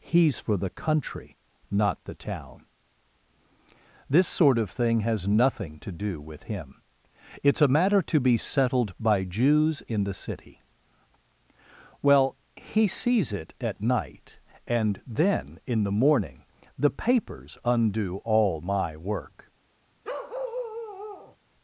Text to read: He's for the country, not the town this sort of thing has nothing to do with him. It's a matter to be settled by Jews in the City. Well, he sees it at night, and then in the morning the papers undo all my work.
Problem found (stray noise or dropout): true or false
true